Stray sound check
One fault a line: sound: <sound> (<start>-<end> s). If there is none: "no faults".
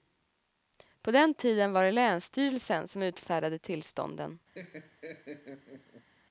sound: laugh (4.5-6.1 s)